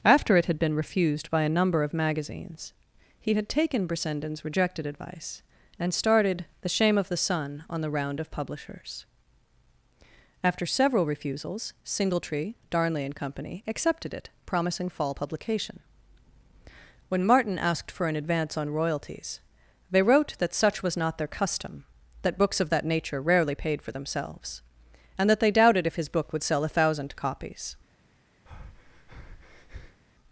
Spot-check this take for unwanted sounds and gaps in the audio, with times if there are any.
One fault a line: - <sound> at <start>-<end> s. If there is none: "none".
- breath at 28.5-30.0 s